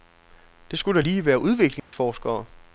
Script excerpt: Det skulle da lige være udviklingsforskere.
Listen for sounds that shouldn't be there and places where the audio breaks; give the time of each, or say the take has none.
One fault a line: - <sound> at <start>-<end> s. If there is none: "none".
- dropout at 1.8-1.9 s